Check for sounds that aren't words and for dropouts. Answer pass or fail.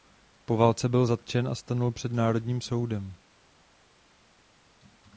pass